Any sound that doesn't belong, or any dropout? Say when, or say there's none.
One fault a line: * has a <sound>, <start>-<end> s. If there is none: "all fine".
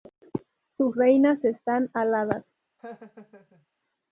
* has a laugh, 2.8-3.7 s